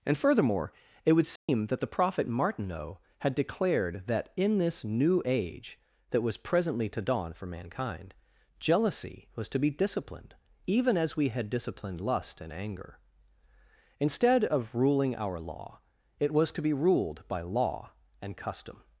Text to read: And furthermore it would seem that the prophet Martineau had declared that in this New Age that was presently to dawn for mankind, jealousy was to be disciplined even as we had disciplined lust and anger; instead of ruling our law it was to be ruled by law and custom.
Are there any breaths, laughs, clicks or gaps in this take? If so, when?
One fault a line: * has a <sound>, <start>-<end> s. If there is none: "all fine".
* has a dropout, 1.4-1.5 s